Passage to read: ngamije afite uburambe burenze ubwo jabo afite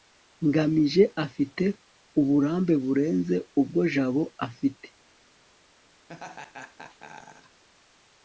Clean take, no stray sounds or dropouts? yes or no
no